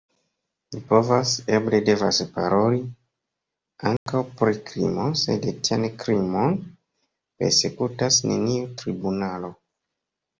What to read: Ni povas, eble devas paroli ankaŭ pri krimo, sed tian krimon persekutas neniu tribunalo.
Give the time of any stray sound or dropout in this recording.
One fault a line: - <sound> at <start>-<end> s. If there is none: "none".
- dropout at 4.0-4.1 s